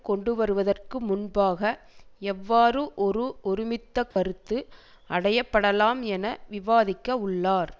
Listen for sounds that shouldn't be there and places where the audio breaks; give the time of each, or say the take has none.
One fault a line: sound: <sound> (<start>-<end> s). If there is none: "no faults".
sound: dropout (4.1-4.2 s)